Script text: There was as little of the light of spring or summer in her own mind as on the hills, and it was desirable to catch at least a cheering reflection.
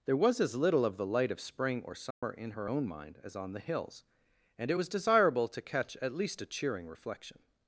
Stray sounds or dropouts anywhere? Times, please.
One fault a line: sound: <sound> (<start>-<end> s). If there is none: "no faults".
sound: dropout (2.1-2.2 s)